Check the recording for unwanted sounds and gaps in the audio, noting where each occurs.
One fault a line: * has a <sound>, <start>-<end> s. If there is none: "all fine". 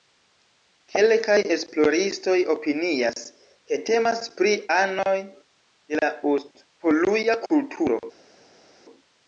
all fine